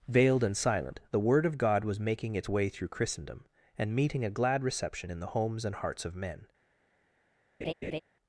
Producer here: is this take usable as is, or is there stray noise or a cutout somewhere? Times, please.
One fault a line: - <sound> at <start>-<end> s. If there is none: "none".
- laugh at 7.6-8.0 s